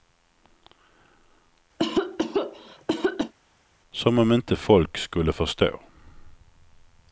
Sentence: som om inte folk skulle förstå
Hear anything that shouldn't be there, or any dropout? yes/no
yes